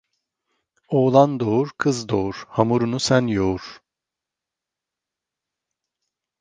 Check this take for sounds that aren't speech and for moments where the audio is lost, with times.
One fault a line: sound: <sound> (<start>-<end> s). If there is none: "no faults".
no faults